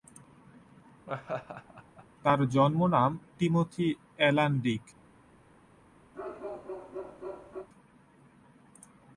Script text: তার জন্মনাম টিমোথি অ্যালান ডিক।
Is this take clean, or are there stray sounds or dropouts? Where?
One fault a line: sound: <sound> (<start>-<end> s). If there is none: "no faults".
sound: laugh (1.1-2.1 s)
sound: bark (6.1-7.7 s)